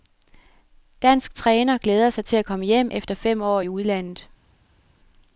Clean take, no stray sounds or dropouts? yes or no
yes